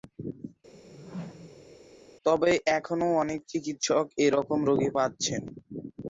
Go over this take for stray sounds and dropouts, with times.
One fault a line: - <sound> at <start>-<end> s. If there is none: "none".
- whoosh at 0.7-1.8 s